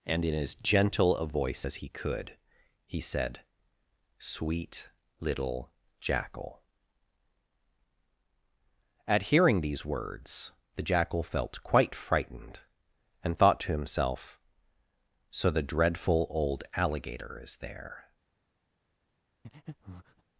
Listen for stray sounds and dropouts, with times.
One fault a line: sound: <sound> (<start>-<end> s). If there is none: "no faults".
sound: breath (19.4-20.2 s)